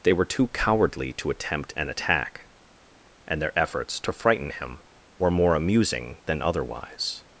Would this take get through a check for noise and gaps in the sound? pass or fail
pass